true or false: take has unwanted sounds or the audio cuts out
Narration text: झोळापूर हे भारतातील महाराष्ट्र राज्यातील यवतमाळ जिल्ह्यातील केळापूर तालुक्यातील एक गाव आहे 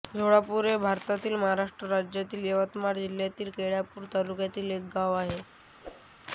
true